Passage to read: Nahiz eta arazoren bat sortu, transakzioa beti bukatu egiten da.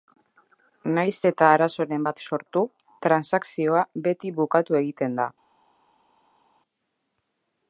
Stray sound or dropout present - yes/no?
no